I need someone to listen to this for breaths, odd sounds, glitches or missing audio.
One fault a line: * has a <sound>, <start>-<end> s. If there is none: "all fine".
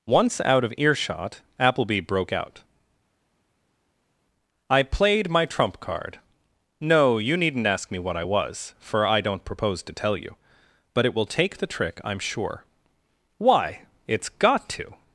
all fine